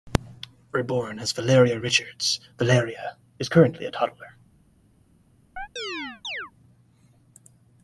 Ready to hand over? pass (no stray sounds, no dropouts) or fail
fail